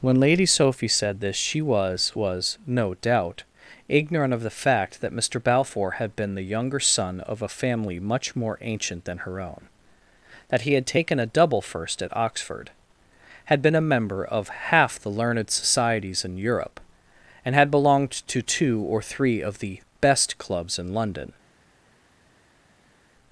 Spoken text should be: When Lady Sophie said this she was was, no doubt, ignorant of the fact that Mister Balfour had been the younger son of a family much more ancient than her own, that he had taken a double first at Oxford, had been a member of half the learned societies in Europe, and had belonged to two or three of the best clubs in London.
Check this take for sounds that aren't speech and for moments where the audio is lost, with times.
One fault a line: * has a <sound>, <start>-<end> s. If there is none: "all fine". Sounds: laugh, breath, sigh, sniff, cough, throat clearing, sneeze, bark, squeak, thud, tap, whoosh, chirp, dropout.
all fine